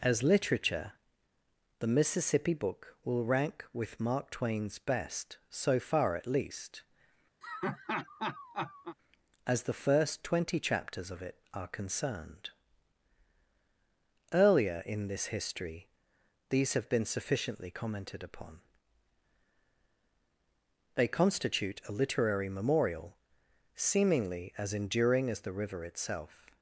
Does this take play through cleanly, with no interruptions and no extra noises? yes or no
no